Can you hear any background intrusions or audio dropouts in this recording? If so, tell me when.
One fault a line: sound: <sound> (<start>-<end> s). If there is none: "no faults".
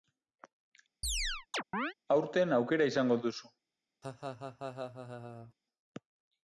sound: chirp (1.0-1.9 s)
sound: laugh (4.0-5.5 s)